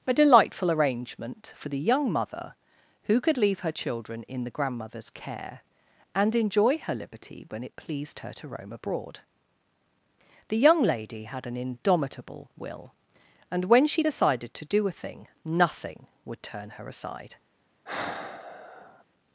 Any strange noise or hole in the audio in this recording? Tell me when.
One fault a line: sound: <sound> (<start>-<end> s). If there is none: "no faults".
sound: sigh (17.9-19.0 s)